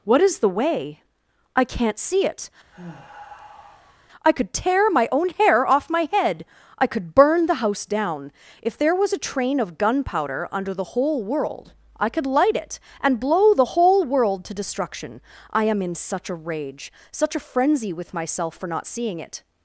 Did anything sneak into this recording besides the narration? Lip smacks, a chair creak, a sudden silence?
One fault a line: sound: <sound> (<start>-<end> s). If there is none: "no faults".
sound: sigh (2.7-4.1 s)